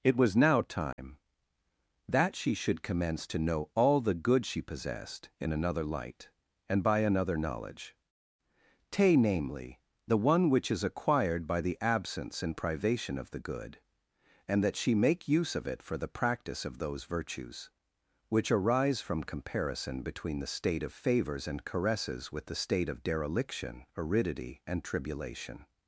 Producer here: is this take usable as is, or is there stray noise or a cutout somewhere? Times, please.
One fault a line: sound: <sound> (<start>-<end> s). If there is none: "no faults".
sound: dropout (0.9-1.0 s)